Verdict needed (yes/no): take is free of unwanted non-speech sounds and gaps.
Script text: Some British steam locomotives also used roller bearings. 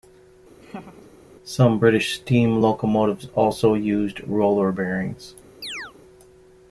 no